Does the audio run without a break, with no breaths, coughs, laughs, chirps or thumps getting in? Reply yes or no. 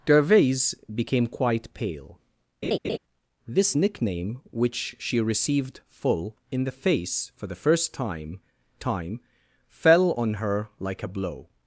no